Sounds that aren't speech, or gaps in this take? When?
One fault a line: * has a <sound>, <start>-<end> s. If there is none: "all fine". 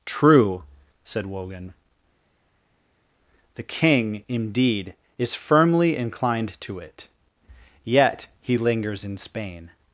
all fine